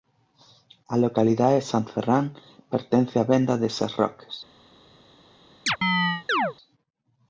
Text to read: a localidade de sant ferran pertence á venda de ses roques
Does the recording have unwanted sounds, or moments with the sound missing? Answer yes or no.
yes